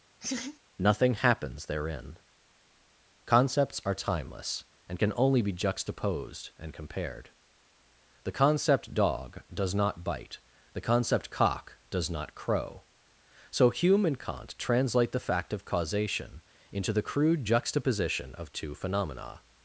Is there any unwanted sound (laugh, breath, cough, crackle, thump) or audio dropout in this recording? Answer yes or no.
yes